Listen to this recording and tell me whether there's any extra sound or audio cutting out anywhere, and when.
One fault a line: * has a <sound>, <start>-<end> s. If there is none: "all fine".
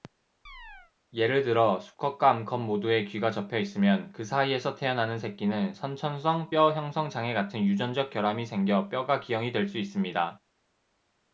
* has a chirp, 0.5-0.9 s